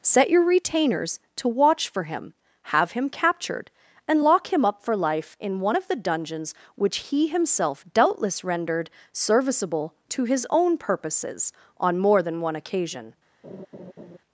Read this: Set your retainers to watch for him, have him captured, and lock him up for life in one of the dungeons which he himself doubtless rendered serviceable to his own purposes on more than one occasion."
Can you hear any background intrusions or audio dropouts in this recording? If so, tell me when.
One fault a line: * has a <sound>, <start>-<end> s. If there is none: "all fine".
* has a laugh, 13.4-14.2 s